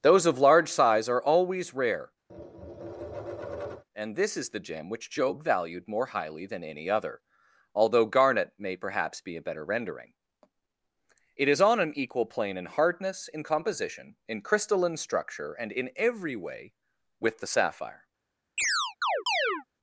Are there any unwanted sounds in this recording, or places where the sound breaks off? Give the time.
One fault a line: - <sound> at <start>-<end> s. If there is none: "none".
- tap at 2.3-3.8 s
- chirp at 18.6-19.6 s